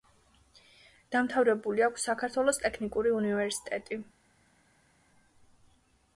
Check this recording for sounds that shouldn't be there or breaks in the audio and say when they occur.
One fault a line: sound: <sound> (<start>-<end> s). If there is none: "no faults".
no faults